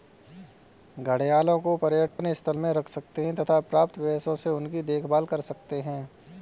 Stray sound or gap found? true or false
true